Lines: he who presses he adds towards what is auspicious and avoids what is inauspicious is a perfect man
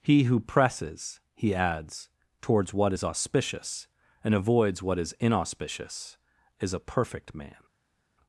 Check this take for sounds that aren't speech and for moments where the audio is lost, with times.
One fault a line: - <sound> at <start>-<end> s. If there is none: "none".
none